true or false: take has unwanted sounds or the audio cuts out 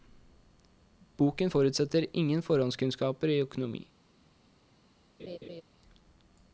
true